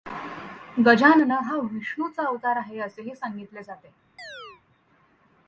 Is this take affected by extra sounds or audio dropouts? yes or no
yes